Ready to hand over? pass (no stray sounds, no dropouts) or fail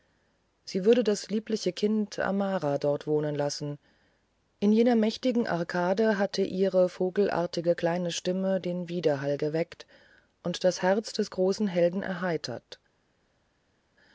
pass